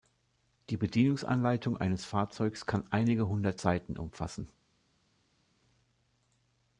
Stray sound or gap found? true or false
false